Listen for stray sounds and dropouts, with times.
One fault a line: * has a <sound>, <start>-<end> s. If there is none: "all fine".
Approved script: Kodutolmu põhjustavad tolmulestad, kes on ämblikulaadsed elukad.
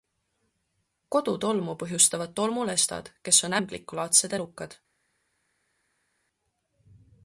all fine